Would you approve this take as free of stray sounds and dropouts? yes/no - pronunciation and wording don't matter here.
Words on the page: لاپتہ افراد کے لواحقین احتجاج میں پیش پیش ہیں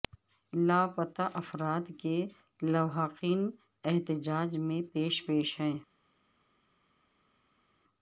yes